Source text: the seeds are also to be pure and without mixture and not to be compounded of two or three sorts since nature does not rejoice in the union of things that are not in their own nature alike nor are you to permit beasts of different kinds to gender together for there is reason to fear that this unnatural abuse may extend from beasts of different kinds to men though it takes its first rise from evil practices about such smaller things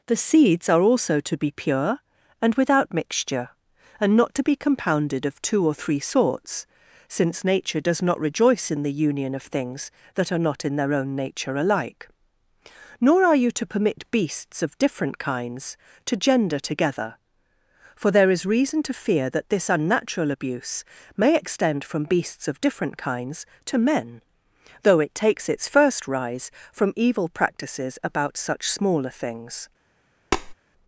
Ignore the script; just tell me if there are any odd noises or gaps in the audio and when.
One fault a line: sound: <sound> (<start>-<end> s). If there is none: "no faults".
sound: tap (30.3-30.5 s)